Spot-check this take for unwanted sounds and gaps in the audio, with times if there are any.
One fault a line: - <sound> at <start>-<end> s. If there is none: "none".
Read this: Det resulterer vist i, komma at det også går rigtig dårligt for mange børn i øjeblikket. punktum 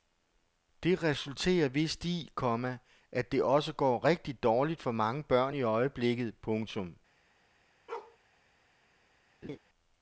- bark at 7.9-8.2 s
- laugh at 9.4-9.6 s